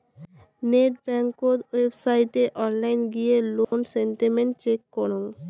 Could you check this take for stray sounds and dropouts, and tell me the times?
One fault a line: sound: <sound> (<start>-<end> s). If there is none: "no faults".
sound: dropout (3.6-3.7 s)